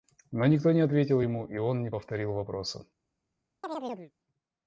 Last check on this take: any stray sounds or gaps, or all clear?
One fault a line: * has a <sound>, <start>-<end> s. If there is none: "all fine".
* has a chirp, 3.6-4.1 s